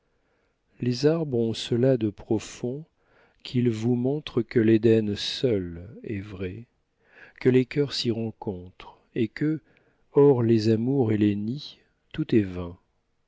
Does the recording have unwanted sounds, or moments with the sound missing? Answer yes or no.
no